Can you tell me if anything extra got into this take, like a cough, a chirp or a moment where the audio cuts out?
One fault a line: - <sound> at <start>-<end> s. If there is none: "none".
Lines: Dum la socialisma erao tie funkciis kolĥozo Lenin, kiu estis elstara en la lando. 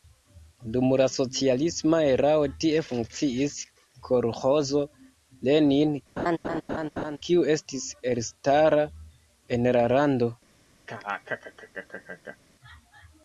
- laugh at 6.2-7.2 s
- laugh at 10.9-12.4 s